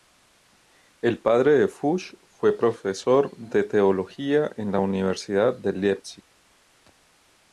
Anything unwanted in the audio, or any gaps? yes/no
no